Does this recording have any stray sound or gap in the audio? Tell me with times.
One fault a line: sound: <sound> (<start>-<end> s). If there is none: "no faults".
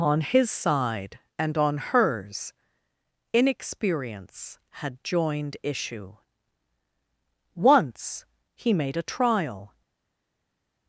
no faults